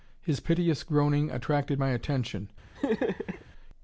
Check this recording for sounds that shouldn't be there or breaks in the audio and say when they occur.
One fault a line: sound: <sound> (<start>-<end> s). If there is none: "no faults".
sound: laugh (2.8-3.5 s)